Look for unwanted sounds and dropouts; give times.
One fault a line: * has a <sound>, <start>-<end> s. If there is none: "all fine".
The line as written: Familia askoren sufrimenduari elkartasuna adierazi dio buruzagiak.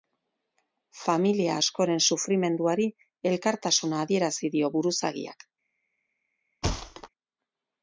* has a thud, 6.6-7.1 s